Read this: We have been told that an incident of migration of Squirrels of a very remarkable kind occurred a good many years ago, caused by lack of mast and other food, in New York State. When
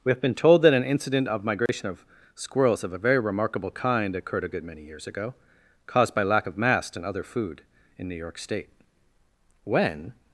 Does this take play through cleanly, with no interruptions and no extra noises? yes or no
no